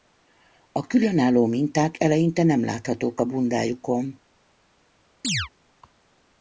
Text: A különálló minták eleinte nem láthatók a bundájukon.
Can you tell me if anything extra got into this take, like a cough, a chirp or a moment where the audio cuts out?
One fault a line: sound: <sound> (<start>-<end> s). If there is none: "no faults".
sound: chirp (5.2-5.5 s)